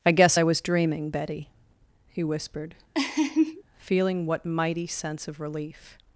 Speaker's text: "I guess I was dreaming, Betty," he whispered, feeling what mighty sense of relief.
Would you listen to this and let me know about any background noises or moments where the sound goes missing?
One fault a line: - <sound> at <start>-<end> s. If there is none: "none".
- laugh at 2.9-3.6 s